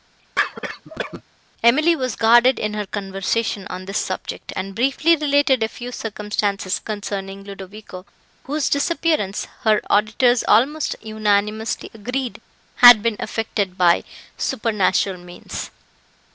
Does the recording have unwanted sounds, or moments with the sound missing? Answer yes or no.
yes